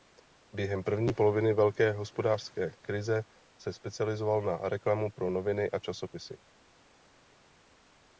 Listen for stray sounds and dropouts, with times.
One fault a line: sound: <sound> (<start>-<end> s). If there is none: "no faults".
no faults